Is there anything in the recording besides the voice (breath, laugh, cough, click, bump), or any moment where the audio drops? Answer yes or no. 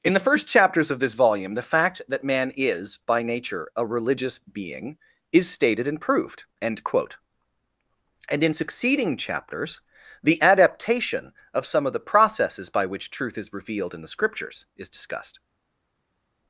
no